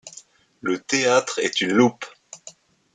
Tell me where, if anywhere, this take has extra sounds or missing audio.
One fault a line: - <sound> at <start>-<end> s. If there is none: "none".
none